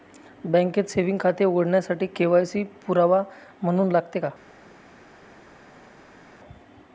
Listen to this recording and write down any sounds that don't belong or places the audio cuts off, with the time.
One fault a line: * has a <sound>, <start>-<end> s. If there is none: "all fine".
all fine